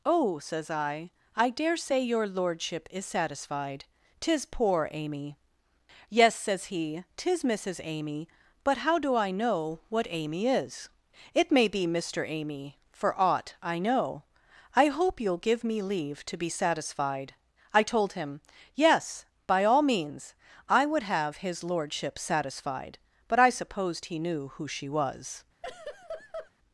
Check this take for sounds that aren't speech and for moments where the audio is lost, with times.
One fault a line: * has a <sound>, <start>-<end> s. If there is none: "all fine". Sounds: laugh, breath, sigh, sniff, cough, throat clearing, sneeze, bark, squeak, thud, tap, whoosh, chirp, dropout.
* has a laugh, 25.6-26.5 s